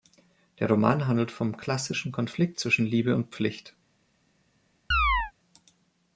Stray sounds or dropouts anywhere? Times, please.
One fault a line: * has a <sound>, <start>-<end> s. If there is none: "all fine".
* has a chirp, 4.9-5.3 s